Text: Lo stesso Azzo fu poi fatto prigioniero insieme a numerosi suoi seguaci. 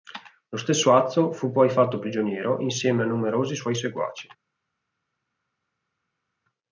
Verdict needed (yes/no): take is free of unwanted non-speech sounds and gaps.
yes